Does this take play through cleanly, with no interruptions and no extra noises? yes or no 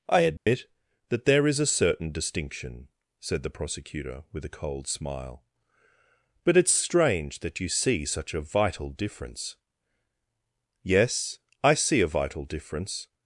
no